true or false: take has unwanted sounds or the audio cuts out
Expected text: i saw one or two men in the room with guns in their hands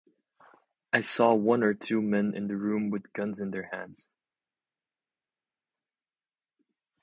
false